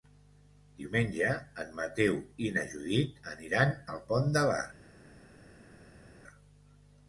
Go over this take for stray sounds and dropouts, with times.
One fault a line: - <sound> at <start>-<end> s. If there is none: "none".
none